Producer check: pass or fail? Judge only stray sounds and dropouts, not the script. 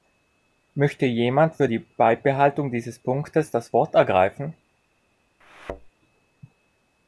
fail